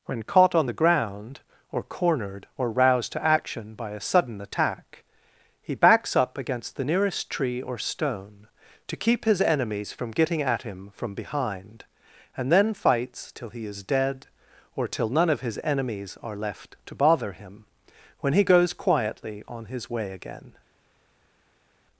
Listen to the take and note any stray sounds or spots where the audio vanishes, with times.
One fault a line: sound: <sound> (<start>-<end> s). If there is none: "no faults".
no faults